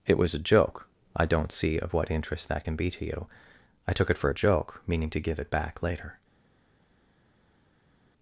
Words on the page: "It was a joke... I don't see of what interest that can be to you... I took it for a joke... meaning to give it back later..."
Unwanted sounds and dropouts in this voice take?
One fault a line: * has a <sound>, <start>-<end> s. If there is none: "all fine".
all fine